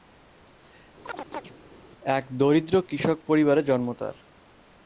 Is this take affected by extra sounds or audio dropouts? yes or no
yes